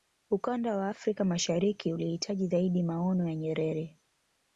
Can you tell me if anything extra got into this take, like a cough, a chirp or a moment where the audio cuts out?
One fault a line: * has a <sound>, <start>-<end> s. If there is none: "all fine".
all fine